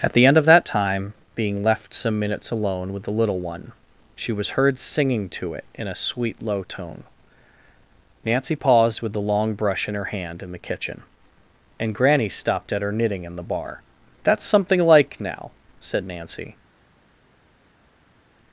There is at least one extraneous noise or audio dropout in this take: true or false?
false